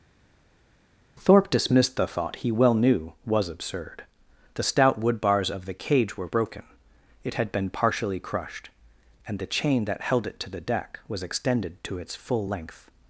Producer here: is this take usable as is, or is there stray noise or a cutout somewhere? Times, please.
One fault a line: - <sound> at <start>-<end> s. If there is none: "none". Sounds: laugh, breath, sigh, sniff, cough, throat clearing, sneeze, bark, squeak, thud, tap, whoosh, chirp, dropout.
none